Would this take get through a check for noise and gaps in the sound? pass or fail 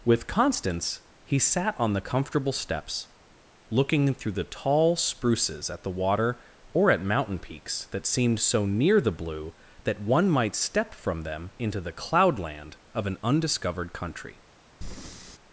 fail